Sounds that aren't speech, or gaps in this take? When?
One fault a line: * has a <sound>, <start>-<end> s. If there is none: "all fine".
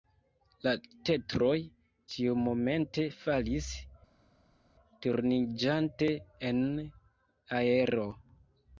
all fine